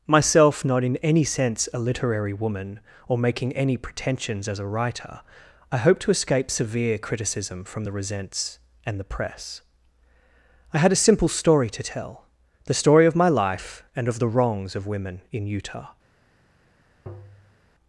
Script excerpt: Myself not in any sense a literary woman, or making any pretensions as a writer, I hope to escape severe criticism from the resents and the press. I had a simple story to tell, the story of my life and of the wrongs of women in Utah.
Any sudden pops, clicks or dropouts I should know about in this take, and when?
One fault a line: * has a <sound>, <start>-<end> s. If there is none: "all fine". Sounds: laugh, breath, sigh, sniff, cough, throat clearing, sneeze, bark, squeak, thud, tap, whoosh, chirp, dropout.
* has a tap, 17.1-17.6 s